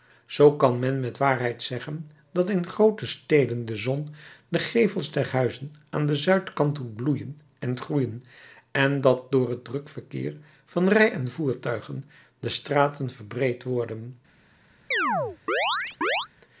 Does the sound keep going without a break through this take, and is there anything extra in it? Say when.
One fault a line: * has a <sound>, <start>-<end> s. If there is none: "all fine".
* has a chirp, 14.9-16.3 s